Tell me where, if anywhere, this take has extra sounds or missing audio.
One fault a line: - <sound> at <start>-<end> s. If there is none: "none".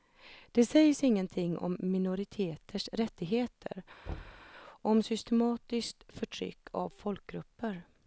- thud at 4.1-4.5 s